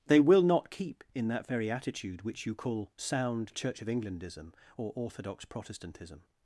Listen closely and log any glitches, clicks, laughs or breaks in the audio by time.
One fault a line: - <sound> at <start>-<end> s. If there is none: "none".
none